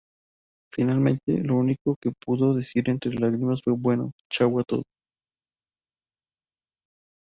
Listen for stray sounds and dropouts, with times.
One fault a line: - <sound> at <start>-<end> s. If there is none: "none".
none